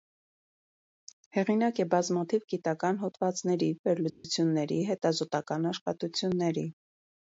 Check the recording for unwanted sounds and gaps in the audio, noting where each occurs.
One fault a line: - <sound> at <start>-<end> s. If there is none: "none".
- dropout at 4.1-4.2 s